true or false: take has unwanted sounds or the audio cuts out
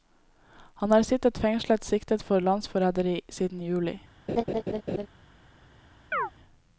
true